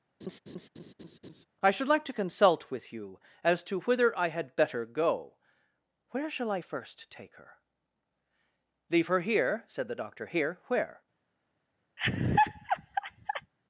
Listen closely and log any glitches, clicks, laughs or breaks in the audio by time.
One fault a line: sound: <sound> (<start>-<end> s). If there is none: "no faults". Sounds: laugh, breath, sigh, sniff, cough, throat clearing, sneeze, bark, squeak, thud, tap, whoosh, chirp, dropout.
sound: laugh (0.2-1.5 s)
sound: laugh (12.0-13.5 s)